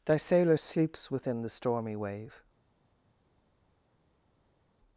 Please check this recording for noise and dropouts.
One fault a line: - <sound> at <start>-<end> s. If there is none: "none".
none